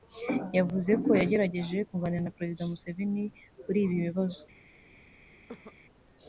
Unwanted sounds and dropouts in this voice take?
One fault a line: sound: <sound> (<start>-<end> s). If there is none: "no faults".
sound: cough (5.5-5.8 s)